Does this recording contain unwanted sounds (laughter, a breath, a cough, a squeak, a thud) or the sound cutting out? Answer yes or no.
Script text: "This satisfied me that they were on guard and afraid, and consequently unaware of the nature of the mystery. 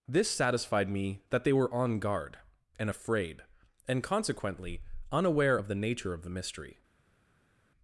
no